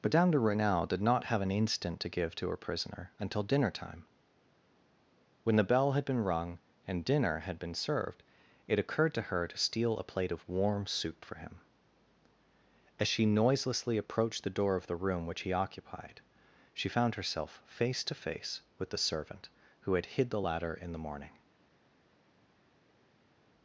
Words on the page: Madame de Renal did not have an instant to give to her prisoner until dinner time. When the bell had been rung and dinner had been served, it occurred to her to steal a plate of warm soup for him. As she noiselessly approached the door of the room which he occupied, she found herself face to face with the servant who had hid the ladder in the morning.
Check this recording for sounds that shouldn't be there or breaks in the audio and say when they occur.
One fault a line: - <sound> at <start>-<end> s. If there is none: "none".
none